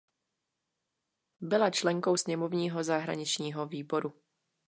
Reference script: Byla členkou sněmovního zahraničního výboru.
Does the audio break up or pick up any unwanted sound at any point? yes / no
no